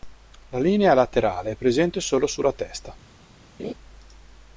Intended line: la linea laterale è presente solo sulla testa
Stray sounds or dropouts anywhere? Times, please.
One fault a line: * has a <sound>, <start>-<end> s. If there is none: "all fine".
* has a laugh, 3.6-3.7 s